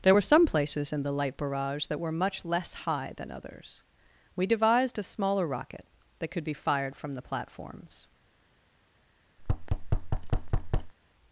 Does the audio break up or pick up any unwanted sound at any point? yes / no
yes